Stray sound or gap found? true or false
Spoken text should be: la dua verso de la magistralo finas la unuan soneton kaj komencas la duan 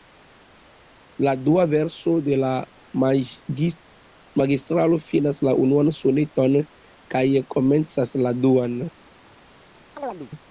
true